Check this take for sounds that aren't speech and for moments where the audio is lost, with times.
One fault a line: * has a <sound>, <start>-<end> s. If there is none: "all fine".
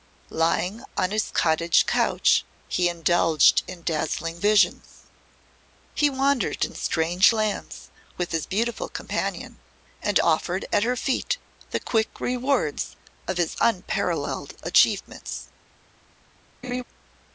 * has a laugh, 16.6-16.8 s